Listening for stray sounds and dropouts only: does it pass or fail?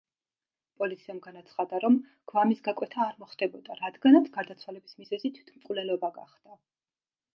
pass